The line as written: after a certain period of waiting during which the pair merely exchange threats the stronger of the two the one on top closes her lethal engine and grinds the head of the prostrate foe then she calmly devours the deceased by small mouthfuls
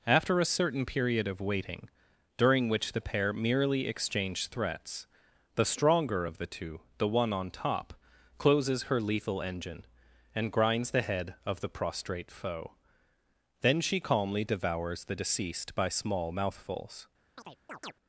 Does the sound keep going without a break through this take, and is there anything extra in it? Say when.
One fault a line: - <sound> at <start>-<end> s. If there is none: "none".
- chirp at 17.4-17.9 s